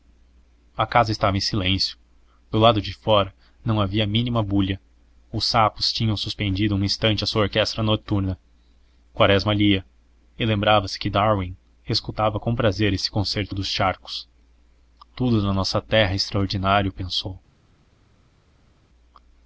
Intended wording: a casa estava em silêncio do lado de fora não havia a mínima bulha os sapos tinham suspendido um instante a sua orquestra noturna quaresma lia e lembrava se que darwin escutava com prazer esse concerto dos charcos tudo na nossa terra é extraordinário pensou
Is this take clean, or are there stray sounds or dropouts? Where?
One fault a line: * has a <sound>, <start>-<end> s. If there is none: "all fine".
all fine